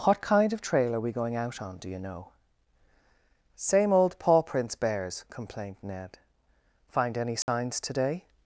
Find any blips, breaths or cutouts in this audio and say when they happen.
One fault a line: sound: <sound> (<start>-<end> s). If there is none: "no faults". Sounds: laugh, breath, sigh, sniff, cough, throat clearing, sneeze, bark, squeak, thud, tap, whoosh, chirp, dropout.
sound: dropout (7.4-7.5 s)